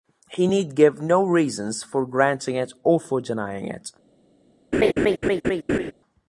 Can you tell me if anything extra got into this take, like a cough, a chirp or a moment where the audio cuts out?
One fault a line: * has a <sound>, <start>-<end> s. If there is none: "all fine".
* has a laugh, 4.7-5.9 s